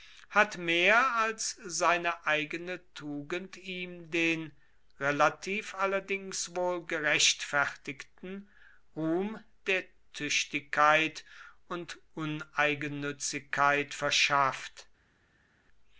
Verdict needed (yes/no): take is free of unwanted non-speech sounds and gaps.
yes